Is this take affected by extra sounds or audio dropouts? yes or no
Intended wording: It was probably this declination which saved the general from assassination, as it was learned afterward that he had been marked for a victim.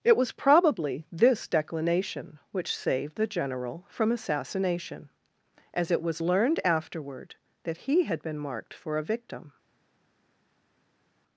no